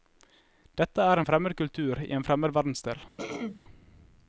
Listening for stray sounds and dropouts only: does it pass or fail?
fail